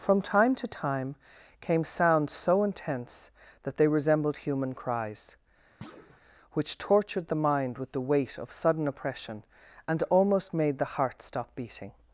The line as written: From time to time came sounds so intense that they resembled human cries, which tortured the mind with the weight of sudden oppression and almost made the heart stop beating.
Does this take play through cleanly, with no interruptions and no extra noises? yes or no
no